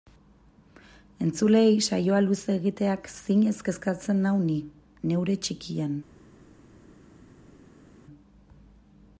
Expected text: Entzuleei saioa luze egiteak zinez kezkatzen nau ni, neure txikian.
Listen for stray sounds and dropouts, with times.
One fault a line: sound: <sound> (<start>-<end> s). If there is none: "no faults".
no faults